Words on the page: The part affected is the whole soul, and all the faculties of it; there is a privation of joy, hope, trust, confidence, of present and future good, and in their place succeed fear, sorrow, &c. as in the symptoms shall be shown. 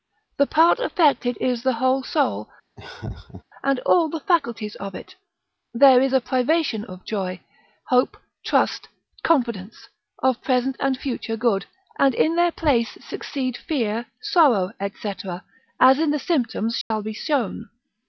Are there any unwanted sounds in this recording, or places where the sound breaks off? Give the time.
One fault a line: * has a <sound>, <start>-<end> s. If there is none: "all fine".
* has a laugh, 2.8-3.4 s
* has a dropout, 16.8-16.9 s